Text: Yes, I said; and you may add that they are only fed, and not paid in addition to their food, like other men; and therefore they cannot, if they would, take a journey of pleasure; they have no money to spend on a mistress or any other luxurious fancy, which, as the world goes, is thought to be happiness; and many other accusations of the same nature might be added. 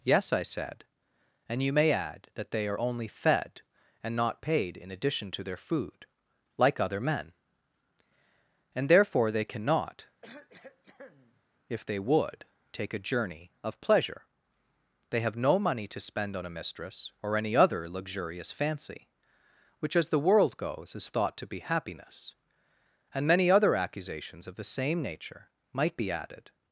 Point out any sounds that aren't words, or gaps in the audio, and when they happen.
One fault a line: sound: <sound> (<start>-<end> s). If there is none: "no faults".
sound: cough (10.2-11.4 s)